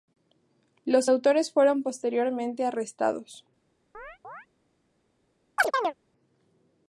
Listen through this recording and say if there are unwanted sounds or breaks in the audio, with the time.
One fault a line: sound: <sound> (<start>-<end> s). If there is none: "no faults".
sound: chirp (3.9-4.5 s)
sound: chirp (5.6-5.9 s)